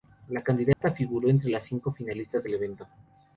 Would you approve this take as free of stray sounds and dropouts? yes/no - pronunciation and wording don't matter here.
no